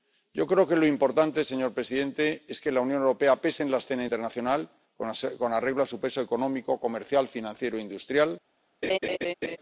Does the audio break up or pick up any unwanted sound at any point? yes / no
yes